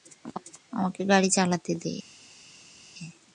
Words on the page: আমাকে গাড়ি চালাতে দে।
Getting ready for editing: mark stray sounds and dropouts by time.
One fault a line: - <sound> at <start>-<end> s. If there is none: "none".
none